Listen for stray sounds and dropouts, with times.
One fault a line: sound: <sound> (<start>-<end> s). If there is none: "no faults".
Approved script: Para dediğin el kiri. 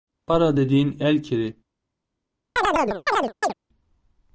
sound: chirp (2.6-3.5 s)